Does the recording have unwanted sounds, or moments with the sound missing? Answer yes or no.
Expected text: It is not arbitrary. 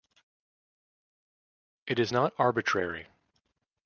no